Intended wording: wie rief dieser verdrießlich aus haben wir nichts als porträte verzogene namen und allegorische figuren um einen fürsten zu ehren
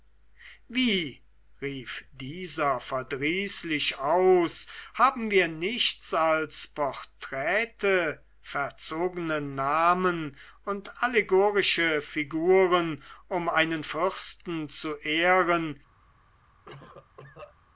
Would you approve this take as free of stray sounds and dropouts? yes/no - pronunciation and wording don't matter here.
no